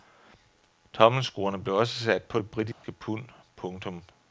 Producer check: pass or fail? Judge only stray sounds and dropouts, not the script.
fail